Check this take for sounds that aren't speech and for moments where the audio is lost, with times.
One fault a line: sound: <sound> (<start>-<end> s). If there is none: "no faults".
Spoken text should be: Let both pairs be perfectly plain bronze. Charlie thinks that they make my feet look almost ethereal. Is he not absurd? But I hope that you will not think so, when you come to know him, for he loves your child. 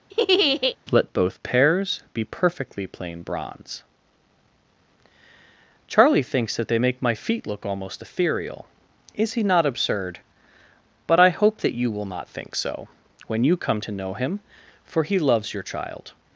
sound: laugh (0.1-0.8 s)